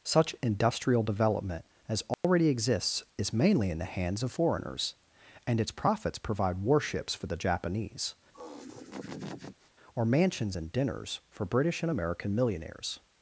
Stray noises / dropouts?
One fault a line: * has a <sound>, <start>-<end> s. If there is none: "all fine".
* has a dropout, 2.1-2.2 s
* has a laugh, 8.3-9.7 s